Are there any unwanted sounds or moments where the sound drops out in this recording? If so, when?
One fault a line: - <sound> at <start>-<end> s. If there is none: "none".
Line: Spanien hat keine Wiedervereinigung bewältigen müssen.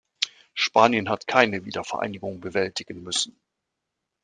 none